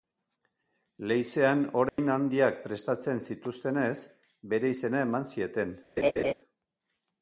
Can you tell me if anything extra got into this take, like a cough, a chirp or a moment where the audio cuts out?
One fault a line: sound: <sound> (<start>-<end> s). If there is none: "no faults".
sound: dropout (1.9-2.0 s)
sound: laugh (6.0-6.3 s)